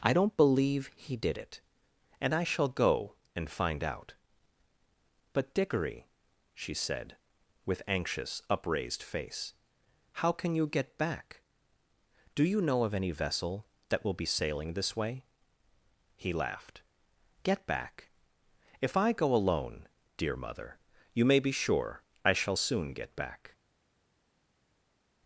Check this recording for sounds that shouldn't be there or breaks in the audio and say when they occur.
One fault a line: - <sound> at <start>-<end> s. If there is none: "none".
none